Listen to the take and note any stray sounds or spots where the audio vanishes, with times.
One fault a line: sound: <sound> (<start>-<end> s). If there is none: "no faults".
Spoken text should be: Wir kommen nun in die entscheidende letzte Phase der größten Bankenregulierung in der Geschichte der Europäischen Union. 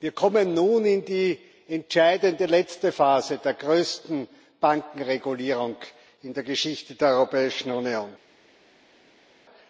no faults